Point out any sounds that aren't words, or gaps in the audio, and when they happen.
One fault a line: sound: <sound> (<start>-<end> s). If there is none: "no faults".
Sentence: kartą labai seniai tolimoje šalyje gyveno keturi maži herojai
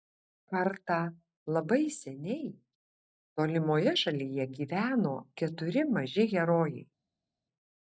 no faults